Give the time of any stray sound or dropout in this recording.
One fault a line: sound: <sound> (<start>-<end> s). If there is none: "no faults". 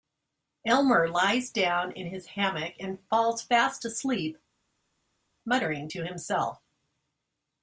no faults